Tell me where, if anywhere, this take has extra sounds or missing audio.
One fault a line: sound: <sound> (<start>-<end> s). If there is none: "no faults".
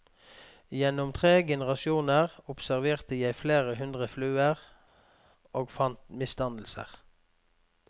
no faults